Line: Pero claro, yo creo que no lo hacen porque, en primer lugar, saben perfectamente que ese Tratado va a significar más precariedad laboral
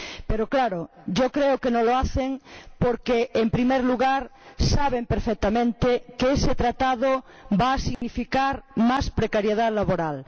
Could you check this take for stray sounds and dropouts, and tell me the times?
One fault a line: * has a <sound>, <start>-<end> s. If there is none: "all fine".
* has a dropout, 7.9-8.0 s